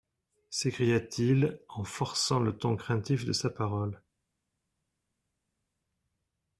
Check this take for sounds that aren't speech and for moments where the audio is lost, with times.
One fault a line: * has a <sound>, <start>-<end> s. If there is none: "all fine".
all fine